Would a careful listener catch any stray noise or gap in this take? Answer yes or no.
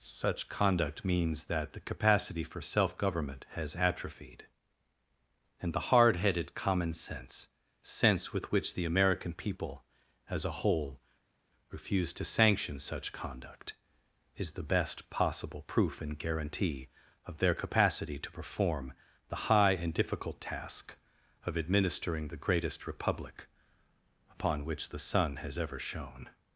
no